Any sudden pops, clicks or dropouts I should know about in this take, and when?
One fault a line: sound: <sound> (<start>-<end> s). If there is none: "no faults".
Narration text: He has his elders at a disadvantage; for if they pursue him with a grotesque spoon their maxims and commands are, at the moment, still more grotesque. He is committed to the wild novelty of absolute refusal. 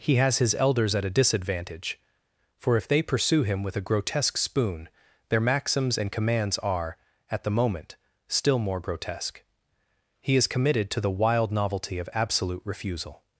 no faults